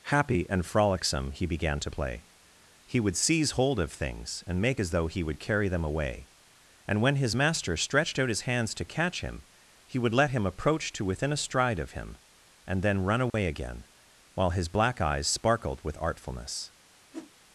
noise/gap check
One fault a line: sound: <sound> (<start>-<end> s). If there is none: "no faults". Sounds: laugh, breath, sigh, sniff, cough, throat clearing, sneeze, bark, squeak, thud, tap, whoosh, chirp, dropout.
sound: dropout (13.3-13.3 s)
sound: whoosh (17.1-17.3 s)